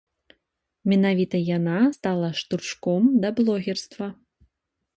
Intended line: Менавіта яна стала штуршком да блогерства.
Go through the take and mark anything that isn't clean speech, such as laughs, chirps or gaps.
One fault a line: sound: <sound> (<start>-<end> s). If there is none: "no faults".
no faults